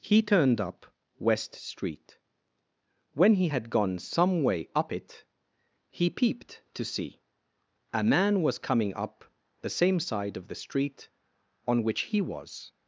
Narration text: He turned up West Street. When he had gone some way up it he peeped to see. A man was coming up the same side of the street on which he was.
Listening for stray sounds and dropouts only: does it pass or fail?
pass